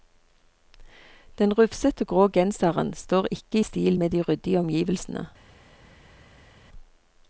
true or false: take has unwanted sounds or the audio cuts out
false